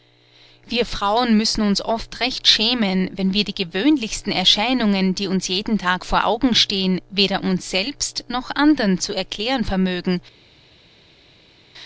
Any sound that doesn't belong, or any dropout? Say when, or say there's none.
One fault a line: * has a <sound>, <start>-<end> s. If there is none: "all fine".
all fine